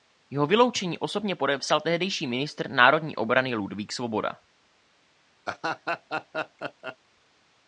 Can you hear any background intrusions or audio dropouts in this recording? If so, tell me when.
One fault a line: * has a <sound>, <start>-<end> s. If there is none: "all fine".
* has a laugh, 5.5-7.0 s